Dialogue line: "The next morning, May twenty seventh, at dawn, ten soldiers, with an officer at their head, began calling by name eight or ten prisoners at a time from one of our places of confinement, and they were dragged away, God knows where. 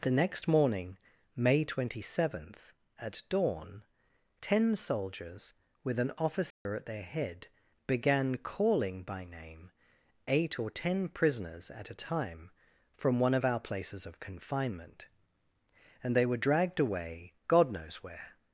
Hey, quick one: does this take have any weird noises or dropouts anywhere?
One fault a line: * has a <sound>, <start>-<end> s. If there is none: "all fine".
* has a dropout, 6.5-6.7 s